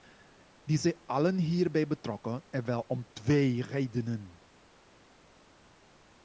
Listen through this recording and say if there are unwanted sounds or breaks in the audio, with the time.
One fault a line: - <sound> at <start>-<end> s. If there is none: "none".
none